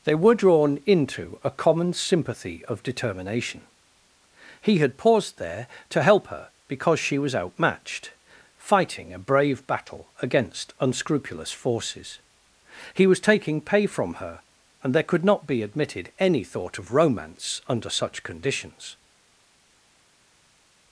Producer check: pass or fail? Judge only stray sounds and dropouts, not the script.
pass